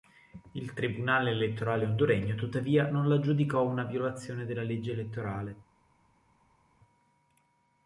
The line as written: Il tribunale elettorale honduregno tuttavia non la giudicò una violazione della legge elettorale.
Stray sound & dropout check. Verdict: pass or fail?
pass